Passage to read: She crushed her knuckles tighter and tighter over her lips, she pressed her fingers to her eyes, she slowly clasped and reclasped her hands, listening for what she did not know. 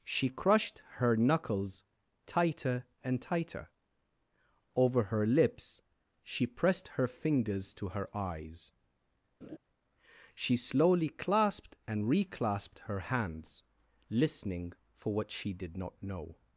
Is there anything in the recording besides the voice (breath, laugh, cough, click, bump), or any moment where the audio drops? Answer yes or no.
yes